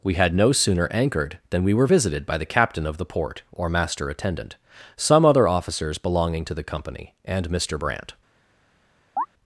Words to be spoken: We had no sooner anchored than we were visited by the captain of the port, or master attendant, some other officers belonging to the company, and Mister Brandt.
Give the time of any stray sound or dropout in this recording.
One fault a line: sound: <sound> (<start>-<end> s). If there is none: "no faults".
sound: chirp (9.2-9.3 s)